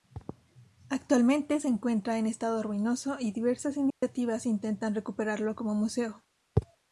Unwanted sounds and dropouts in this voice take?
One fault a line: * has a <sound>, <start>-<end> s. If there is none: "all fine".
* has a dropout, 3.9-4.0 s